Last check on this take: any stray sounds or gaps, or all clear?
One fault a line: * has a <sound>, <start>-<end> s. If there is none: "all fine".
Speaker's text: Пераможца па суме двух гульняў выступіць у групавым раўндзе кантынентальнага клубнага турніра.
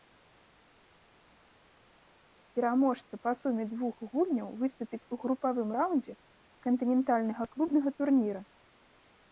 all fine